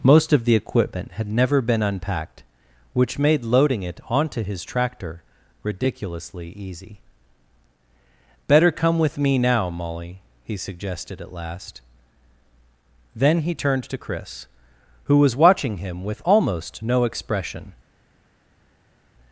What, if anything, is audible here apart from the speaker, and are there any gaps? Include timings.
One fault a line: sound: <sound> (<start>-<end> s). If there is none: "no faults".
no faults